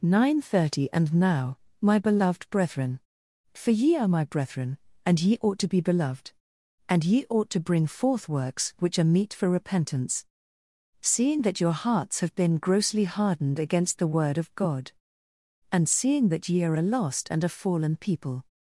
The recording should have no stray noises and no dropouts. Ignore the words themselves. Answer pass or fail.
pass